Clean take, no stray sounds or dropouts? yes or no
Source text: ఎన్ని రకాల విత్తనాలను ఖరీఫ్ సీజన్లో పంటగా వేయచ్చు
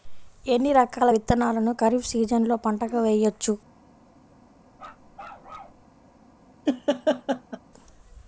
no